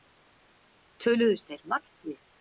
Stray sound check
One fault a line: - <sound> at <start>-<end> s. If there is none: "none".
none